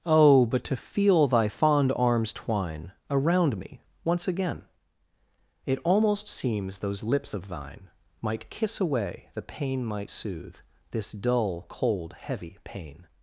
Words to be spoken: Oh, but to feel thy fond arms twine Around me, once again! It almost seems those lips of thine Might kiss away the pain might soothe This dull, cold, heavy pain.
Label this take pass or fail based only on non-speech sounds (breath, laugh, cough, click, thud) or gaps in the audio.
pass